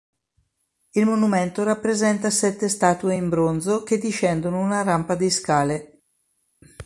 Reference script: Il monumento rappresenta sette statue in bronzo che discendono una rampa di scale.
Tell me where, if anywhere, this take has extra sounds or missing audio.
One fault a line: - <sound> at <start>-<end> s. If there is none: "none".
none